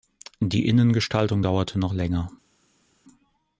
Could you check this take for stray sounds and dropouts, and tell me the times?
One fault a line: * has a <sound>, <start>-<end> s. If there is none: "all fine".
all fine